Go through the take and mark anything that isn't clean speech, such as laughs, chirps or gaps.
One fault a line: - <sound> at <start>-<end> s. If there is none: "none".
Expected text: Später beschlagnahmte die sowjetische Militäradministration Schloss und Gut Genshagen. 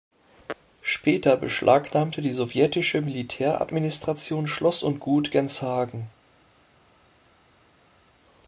none